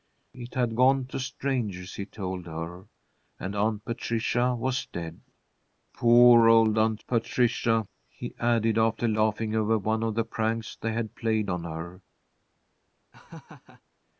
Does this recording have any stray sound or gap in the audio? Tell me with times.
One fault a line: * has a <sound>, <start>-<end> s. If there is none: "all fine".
* has a laugh, 13.1-13.8 s